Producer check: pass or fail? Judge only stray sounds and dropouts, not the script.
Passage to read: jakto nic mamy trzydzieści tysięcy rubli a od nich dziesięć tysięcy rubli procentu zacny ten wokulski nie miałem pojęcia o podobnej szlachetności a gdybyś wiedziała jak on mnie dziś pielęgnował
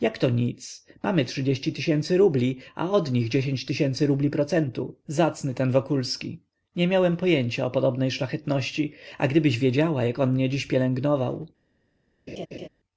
fail